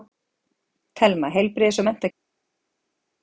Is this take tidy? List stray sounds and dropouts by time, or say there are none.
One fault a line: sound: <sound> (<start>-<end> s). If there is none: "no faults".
no faults